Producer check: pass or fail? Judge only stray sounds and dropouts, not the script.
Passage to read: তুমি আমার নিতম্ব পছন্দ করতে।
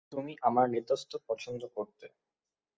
pass